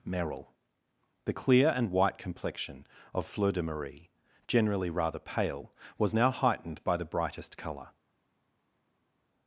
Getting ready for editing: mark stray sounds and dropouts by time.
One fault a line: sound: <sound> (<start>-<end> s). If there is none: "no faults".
no faults